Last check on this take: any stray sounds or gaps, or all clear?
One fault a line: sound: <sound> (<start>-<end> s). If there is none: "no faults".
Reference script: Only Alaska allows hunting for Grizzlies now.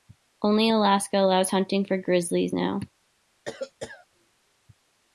sound: cough (3.5-4.1 s)